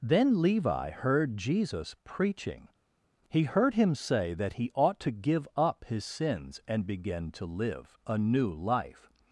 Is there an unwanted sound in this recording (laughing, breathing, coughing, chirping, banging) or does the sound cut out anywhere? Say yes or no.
no